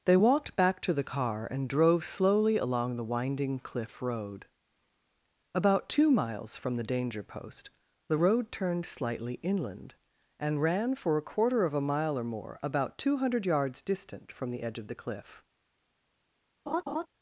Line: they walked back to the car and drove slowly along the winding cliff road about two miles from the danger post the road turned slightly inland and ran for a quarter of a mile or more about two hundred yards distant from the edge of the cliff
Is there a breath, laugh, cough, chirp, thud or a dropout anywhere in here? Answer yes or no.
yes